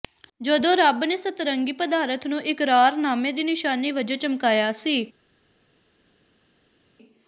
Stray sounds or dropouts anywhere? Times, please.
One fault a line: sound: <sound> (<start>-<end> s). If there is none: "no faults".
no faults